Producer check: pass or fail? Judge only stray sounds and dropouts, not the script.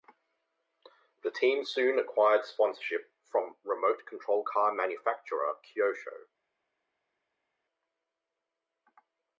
pass